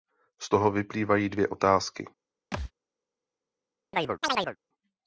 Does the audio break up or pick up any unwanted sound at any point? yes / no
yes